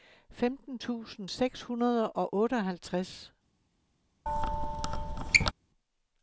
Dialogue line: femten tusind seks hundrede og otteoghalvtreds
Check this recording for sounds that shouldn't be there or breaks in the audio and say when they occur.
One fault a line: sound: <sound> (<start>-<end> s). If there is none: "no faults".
sound: squeak (4.3-5.5 s)